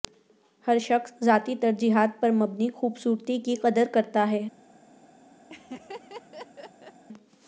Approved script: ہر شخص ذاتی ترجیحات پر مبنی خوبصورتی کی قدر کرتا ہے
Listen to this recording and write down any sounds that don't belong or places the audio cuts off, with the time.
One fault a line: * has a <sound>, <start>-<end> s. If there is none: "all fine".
* has a laugh, 5.5-7.0 s